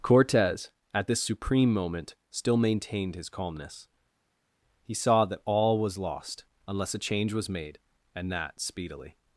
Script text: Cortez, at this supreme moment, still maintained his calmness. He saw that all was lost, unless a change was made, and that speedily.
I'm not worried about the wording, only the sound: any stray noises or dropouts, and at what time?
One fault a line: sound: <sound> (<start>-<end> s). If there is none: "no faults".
no faults